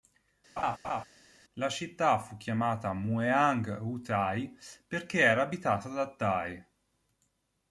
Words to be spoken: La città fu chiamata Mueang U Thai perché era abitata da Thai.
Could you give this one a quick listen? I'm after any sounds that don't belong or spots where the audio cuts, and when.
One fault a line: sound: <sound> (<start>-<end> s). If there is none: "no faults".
sound: laugh (0.6-1.0 s)